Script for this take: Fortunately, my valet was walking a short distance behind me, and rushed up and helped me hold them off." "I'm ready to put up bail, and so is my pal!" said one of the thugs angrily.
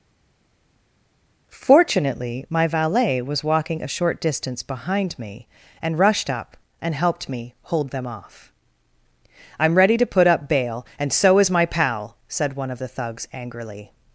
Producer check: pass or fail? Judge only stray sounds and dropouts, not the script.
pass